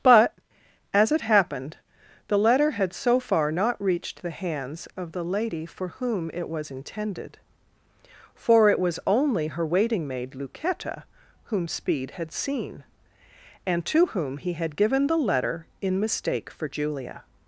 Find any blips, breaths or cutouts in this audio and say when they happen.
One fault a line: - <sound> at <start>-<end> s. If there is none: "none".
none